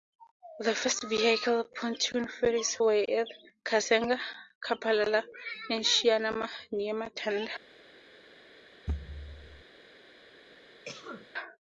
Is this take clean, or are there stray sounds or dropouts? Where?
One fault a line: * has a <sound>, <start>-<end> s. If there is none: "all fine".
* has a thud, 8.9-9.6 s
* has a cough, 10.8-11.3 s